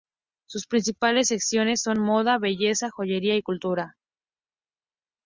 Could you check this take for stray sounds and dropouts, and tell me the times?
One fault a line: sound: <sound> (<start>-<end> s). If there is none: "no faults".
no faults